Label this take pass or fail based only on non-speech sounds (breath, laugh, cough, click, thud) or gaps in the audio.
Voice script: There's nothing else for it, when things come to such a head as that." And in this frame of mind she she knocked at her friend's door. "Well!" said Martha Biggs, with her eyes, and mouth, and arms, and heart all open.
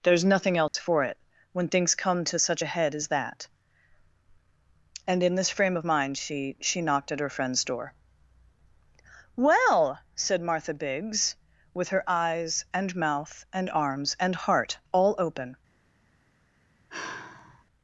fail